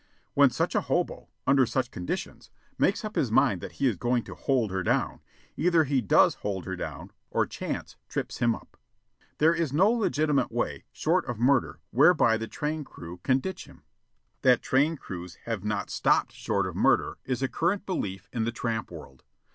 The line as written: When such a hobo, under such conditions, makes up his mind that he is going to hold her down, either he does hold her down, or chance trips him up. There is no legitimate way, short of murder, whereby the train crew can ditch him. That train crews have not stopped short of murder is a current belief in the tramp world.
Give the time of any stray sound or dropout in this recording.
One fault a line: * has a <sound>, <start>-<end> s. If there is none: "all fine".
all fine